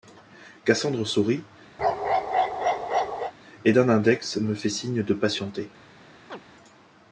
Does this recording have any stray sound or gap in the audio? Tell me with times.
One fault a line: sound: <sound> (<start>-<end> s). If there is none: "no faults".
sound: bark (1.8-3.3 s)
sound: chirp (6.3-6.4 s)